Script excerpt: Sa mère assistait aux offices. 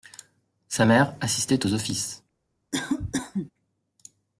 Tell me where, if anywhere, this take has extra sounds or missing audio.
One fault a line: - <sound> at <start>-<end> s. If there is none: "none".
- cough at 2.7-3.5 s